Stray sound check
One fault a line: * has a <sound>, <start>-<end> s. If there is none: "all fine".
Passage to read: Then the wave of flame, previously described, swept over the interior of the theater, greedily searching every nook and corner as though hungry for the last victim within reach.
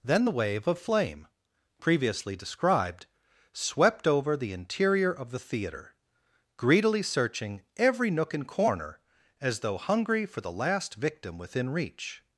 all fine